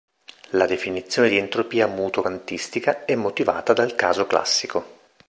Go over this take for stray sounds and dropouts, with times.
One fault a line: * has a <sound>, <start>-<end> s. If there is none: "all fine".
all fine